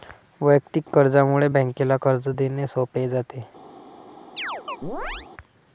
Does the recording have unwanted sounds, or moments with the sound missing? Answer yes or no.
yes